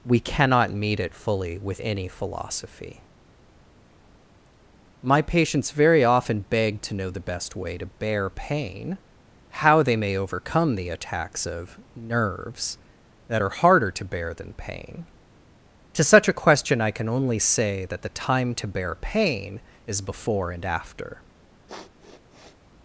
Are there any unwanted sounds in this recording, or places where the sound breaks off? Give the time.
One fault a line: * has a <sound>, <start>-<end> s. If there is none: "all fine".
* has a sniff, 21.7-22.6 s